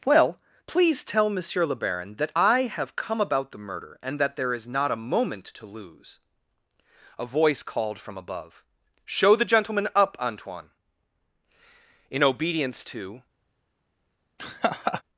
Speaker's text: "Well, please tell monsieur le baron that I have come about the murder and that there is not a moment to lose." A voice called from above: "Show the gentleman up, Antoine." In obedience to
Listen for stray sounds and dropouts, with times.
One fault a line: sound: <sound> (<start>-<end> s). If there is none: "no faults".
sound: laugh (14.4-15.0 s)